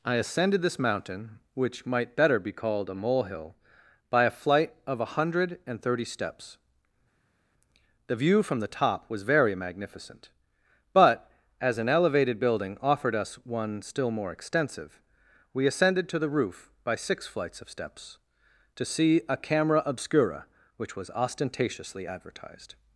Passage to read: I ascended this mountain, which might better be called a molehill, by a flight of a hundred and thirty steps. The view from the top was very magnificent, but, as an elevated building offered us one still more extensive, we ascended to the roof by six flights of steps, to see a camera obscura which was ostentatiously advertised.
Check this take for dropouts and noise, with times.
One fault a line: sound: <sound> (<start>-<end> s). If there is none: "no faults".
no faults